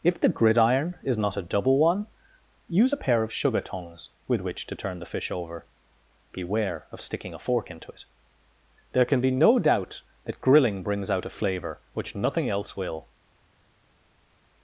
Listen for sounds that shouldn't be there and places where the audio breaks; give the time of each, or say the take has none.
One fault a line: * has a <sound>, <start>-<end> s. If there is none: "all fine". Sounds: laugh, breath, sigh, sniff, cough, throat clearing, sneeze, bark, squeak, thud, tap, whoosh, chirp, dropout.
all fine